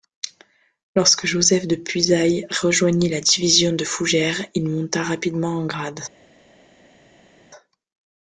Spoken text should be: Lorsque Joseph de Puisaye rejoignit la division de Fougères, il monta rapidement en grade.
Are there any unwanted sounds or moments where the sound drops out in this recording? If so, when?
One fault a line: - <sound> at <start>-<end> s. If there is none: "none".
none